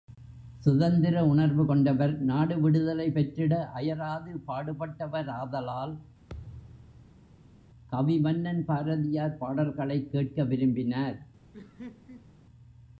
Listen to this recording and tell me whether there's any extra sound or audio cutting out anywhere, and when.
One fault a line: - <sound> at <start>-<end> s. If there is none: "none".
- thud at 6.3-7.6 s
- laugh at 11.5-12.3 s